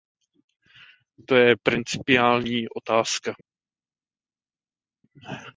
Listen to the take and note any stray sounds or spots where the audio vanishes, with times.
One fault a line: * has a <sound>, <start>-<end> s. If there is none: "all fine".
all fine